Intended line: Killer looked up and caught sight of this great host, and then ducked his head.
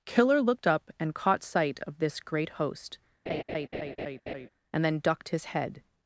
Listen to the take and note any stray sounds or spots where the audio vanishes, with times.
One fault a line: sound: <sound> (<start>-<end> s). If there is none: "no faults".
sound: laugh (3.3-4.5 s)